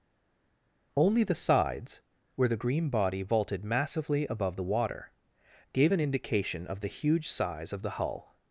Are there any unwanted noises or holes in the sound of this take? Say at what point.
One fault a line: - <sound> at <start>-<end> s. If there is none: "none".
none